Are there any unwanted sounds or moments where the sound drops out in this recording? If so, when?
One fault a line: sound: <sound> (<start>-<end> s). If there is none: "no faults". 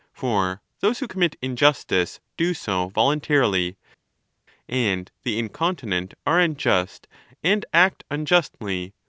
no faults